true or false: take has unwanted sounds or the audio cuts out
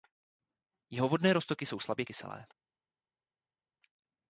false